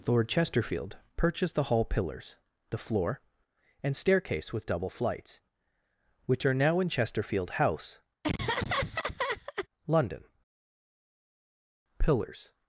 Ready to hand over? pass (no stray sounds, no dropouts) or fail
fail